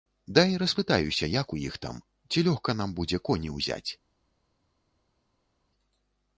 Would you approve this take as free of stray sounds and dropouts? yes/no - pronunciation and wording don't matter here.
yes